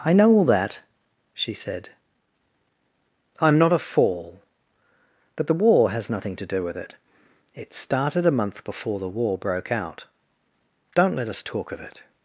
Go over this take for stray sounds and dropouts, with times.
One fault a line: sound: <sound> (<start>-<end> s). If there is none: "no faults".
no faults